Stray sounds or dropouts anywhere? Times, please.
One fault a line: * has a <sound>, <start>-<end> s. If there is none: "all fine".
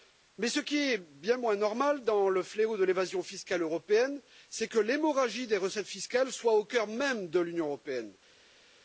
all fine